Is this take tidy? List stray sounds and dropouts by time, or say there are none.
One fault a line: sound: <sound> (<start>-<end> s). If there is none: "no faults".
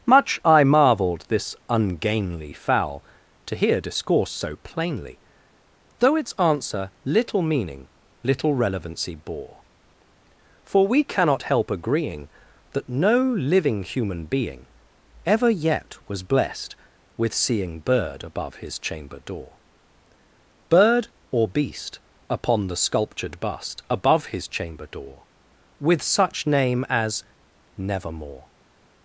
no faults